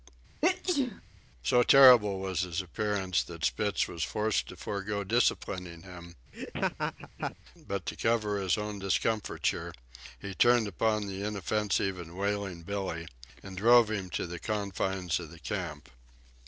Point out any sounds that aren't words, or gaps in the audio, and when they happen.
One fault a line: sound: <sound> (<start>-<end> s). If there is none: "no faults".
sound: sneeze (0.4-1.0 s)
sound: laugh (6.3-7.4 s)